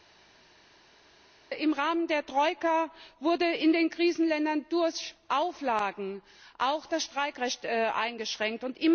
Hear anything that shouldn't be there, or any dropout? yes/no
no